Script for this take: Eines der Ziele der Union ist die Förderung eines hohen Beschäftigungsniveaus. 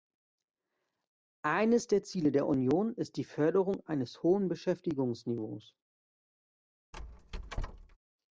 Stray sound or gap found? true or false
true